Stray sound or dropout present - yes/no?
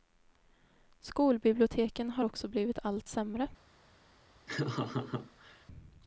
yes